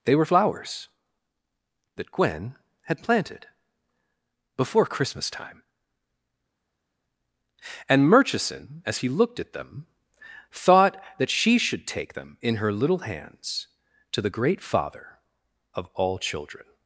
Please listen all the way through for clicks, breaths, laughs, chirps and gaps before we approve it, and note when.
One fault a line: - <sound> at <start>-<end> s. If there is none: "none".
none